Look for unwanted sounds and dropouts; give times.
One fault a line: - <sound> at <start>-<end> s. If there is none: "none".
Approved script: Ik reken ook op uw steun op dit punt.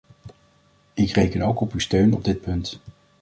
none